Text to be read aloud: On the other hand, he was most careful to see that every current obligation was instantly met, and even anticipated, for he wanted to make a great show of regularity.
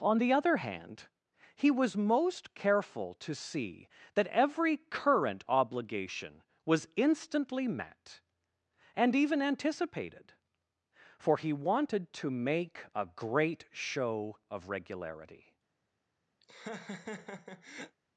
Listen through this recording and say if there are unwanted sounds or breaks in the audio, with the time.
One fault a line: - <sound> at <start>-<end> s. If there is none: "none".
- laugh at 16.4-18.0 s